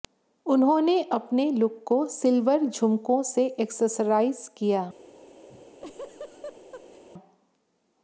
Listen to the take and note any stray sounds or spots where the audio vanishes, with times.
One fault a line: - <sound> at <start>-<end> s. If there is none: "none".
- laugh at 5.5-7.0 s